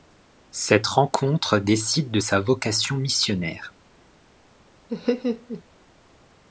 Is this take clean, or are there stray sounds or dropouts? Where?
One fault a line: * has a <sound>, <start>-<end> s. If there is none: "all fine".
* has a laugh, 4.9-5.6 s